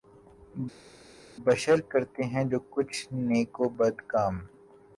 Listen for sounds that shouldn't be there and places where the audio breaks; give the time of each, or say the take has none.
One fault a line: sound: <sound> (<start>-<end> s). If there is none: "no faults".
no faults